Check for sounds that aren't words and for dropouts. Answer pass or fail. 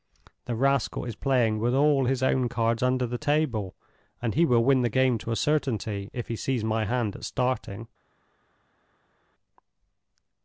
pass